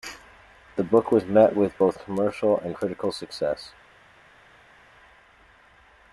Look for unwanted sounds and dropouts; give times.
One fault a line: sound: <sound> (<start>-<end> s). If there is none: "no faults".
no faults